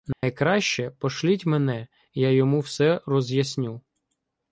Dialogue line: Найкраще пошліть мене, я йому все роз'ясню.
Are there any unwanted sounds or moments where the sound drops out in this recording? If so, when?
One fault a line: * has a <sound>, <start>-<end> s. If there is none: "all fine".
* has a dropout, 0.1-0.2 s